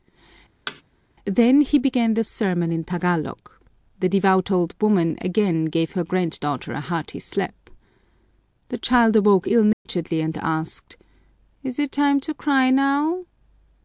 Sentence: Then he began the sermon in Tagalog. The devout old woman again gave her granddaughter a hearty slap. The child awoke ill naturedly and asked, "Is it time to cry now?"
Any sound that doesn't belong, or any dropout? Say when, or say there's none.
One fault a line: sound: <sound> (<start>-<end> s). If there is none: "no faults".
sound: thud (0.7-0.8 s)
sound: dropout (9.7-9.9 s)